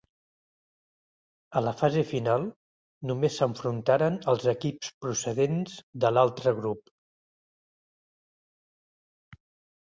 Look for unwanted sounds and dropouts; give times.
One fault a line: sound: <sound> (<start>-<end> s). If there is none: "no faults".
no faults